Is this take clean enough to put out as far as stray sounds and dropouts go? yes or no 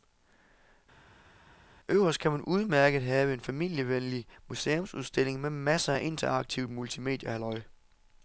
yes